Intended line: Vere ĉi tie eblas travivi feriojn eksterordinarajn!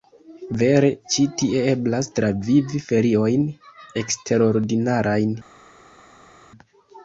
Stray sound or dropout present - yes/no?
no